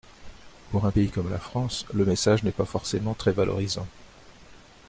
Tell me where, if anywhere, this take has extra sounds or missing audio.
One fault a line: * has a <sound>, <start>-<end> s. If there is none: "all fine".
all fine